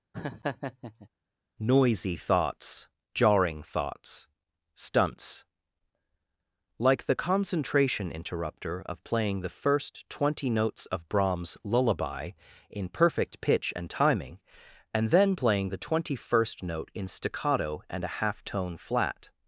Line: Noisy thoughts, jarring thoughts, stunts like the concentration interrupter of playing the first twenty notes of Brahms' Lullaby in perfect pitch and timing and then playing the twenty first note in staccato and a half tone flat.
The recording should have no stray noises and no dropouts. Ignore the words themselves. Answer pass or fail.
fail